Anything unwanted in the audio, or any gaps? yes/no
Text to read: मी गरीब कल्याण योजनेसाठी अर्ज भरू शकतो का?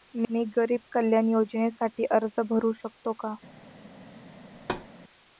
yes